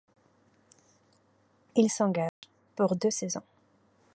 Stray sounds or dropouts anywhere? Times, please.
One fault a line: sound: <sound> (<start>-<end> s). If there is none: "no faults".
sound: dropout (2.3-2.4 s)